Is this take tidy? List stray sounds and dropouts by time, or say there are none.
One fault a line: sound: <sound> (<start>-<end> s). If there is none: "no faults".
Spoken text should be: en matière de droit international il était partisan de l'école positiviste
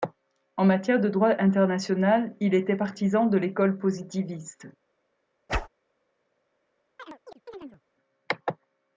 sound: whoosh (5.5-5.7 s)
sound: chirp (7.0-7.8 s)